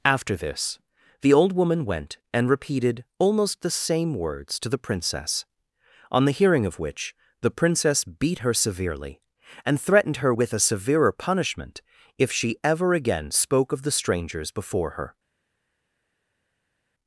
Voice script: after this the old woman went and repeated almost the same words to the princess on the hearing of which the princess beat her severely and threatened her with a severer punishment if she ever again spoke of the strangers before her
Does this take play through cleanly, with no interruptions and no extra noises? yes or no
yes